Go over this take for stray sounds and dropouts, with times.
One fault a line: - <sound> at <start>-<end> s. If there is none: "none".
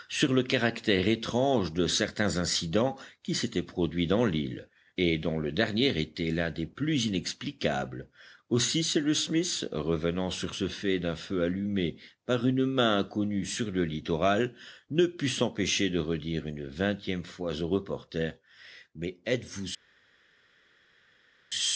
none